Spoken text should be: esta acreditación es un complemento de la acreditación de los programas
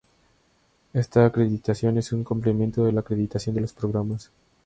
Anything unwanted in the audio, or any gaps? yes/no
no